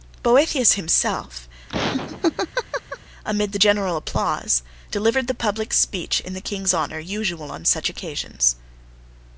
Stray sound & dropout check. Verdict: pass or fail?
fail